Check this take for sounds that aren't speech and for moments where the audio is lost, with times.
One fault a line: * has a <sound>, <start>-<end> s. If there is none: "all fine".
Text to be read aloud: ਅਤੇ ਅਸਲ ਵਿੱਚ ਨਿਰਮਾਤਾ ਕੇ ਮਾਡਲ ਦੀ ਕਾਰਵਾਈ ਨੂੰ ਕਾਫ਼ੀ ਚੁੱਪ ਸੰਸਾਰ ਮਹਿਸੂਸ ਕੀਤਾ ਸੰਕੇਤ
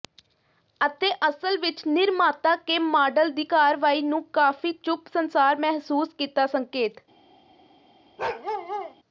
* has a bark, 8.2-8.9 s